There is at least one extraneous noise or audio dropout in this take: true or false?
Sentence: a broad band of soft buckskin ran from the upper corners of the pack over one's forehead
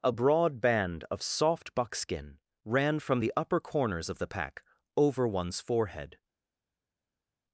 false